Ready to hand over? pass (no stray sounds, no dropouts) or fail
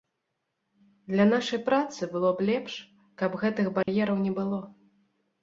fail